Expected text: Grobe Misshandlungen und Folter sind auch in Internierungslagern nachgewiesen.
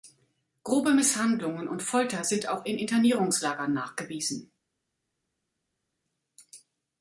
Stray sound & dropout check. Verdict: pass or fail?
pass